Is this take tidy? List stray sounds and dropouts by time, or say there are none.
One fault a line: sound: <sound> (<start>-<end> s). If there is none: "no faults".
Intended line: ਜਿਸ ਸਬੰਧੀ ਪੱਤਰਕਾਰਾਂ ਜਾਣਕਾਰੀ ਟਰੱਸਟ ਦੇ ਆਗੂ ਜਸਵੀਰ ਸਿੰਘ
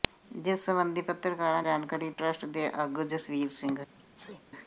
sound: sneeze (4.0-4.4 s)